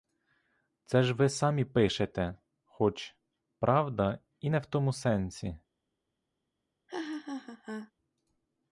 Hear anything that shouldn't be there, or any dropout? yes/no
yes